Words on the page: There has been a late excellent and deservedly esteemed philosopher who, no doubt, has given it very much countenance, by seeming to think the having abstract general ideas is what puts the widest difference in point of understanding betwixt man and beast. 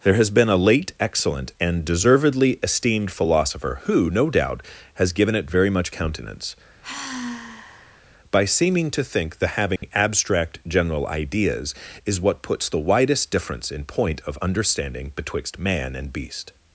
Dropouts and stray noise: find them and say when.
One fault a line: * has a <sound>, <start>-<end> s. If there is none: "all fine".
* has a sigh, 6.8-8.0 s
* has a dropout, 9.8-9.8 s